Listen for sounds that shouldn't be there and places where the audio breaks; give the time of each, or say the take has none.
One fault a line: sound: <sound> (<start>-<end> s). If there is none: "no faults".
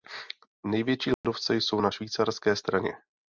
sound: dropout (1.1-1.2 s)